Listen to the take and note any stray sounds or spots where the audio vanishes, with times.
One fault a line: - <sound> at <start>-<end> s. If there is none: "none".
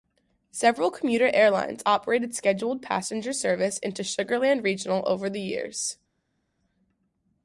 none